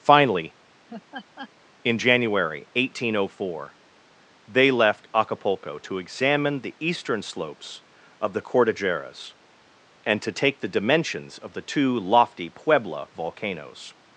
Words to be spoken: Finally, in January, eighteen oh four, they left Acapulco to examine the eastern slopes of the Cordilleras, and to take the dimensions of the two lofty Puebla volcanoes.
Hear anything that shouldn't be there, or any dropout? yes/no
yes